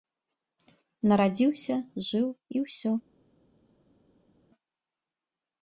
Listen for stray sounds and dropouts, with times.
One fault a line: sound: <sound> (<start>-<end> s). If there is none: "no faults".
no faults